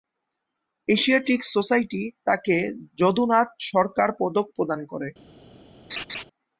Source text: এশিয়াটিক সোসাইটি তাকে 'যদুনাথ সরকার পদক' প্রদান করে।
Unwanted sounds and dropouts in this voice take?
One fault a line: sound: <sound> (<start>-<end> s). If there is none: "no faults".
sound: laugh (5.9-6.2 s)